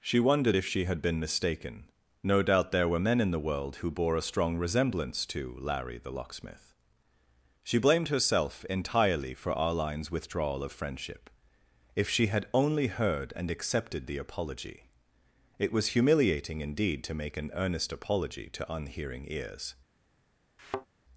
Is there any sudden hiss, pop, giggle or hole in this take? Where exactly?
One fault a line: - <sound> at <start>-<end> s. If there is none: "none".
- thud at 20.6-20.9 s